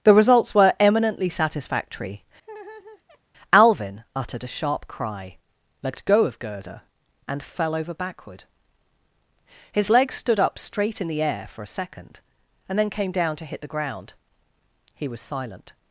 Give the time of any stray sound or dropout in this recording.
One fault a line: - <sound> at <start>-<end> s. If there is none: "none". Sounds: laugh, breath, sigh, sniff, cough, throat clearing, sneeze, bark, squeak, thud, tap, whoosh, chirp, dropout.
- laugh at 2.4-3.2 s